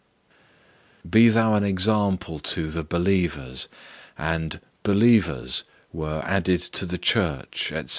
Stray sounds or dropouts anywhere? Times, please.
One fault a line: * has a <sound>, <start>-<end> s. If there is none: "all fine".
all fine